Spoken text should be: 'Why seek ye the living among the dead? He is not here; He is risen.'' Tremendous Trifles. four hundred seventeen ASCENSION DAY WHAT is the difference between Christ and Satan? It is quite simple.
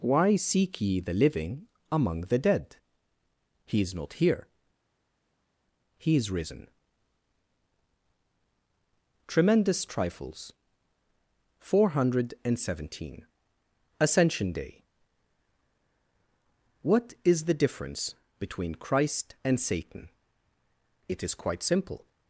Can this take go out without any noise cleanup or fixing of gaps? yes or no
yes